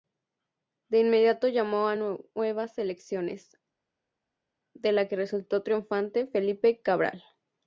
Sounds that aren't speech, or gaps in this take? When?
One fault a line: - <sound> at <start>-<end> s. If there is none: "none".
none